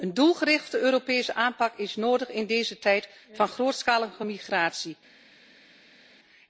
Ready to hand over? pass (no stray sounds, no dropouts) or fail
pass